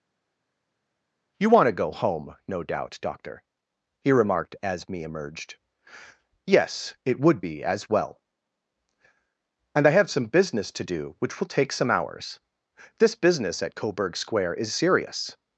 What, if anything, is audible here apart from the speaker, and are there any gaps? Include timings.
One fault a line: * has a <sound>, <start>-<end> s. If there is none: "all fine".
all fine